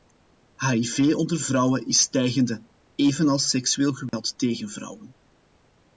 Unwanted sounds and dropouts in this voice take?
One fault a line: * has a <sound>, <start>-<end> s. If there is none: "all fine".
* has a dropout, 4.1-4.1 s